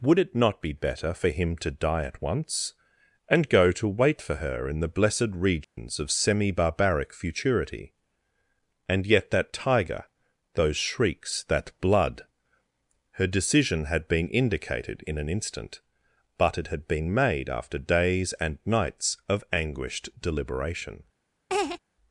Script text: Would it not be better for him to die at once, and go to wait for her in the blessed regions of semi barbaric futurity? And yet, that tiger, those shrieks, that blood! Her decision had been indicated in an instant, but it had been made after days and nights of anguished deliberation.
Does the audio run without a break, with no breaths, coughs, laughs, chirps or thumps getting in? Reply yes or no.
no